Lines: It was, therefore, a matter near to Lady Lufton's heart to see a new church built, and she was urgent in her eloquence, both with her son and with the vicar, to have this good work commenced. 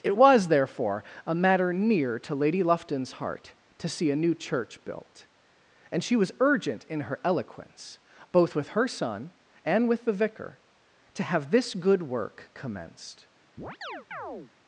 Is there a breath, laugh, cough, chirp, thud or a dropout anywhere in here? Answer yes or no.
yes